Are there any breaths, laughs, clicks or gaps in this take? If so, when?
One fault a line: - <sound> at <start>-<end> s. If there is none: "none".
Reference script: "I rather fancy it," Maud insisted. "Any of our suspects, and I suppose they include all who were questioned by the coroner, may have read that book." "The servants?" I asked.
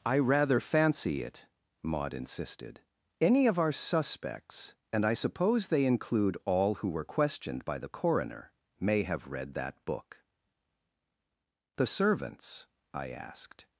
none